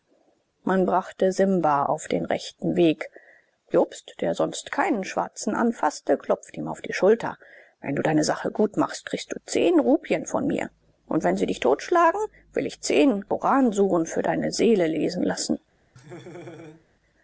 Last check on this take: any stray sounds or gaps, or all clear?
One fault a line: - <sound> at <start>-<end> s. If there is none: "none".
- laugh at 16.0-16.9 s